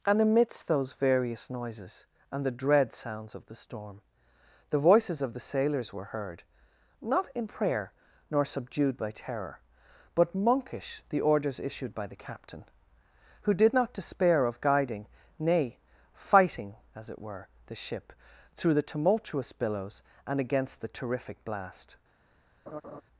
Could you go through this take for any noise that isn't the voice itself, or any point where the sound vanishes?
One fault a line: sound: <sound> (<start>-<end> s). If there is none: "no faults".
sound: laugh (22.7-23.0 s)